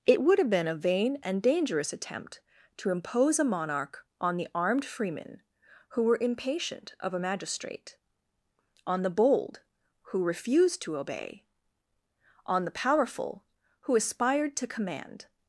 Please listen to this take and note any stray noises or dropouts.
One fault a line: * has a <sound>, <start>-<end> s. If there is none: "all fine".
all fine